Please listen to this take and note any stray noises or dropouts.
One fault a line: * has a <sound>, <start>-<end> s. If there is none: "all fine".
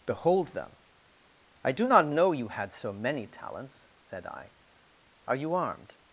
all fine